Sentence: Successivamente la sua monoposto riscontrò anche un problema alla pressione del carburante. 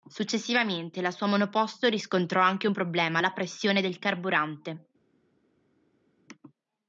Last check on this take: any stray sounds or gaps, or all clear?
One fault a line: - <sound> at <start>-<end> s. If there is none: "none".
none